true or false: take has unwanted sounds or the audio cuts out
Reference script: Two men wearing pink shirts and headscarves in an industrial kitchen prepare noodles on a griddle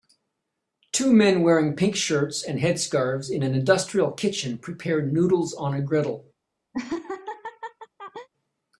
true